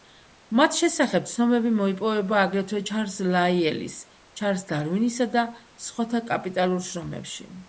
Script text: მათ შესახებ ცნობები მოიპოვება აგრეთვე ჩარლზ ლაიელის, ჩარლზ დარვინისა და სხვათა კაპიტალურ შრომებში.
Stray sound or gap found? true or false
false